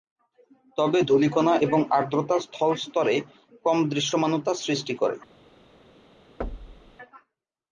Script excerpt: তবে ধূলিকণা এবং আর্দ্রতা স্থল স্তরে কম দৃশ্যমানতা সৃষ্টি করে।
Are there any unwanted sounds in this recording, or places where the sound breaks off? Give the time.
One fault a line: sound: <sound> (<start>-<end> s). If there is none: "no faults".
sound: thud (6.4-7.0 s)